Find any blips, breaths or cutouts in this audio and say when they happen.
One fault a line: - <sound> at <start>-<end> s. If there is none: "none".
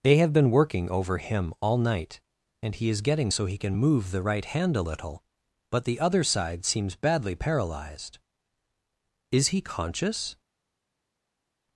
none